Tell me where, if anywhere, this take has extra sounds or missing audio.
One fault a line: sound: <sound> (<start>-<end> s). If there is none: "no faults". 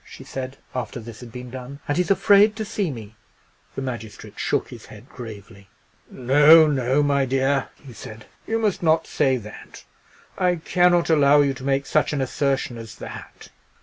no faults